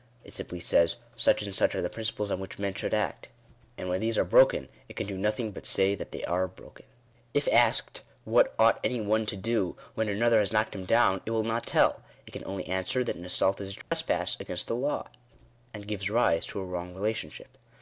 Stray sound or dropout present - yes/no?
yes